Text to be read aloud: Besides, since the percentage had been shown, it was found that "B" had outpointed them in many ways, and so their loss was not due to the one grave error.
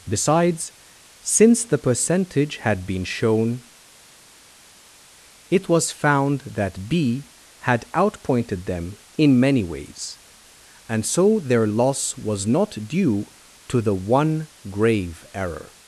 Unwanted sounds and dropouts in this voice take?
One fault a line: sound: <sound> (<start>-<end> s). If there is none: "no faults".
no faults